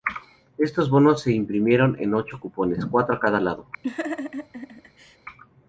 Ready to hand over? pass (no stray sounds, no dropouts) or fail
fail